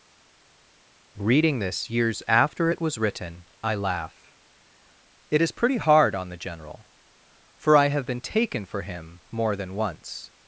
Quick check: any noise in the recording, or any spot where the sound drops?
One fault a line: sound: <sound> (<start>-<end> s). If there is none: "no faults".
no faults